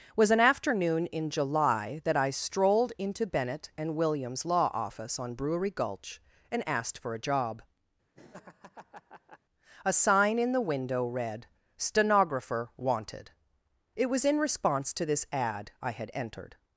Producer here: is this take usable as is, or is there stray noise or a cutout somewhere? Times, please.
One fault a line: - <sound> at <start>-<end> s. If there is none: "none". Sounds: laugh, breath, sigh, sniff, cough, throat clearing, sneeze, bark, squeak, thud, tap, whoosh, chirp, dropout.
- laugh at 8.1-9.4 s